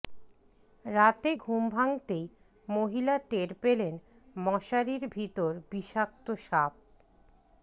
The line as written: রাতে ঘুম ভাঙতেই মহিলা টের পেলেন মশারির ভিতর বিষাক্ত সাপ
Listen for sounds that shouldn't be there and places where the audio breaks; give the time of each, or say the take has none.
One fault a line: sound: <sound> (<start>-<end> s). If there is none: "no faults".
no faults